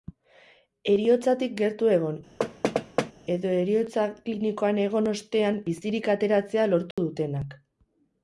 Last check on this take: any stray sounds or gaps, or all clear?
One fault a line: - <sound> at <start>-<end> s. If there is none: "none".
- thud at 2.4-3.1 s
- dropout at 6.9-7.0 s